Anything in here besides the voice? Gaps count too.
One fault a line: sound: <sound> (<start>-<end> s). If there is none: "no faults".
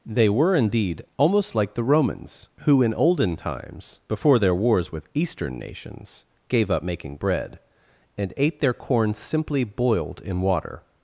no faults